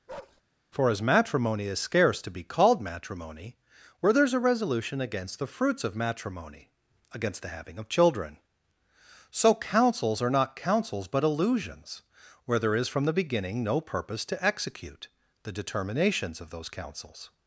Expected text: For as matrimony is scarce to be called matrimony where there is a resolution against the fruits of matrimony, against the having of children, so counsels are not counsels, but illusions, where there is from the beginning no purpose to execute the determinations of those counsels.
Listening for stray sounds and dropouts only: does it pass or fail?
fail